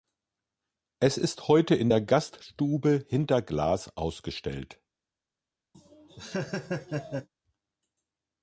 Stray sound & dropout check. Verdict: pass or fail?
fail